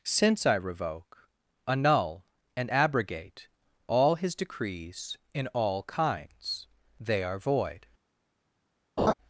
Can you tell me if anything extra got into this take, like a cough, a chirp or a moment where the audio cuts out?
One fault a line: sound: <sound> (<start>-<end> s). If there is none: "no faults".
sound: laugh (9.0-9.1 s)